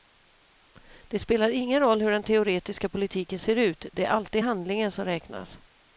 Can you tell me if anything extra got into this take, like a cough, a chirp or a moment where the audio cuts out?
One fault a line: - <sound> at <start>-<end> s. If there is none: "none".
none